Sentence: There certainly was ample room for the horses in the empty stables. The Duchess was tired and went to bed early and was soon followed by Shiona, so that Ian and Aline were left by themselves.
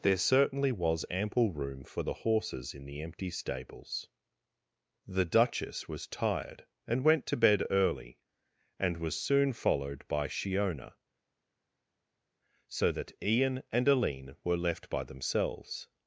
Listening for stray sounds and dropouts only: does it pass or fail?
pass